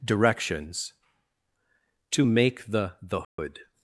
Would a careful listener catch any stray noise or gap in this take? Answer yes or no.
yes